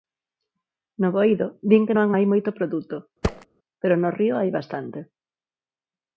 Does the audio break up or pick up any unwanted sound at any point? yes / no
yes